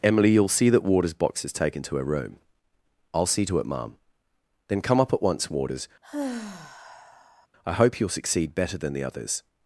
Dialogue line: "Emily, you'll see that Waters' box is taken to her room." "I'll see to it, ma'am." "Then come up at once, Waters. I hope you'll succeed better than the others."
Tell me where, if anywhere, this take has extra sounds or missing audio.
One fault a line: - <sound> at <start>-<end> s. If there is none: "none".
- sigh at 6.0-7.5 s